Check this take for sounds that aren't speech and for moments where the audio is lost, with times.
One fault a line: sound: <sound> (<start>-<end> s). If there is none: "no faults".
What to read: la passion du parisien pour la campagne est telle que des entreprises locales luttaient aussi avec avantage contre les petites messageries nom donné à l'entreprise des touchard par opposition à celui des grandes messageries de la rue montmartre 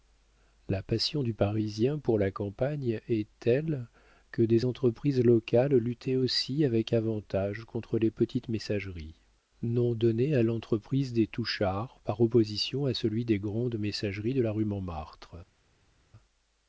no faults